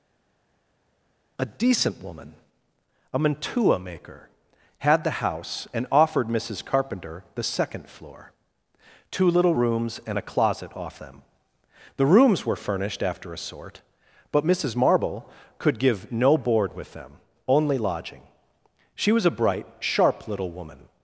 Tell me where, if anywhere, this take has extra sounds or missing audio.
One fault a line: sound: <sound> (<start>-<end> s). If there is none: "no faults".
no faults